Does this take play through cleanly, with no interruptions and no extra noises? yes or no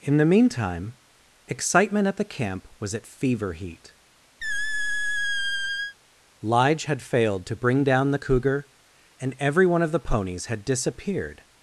no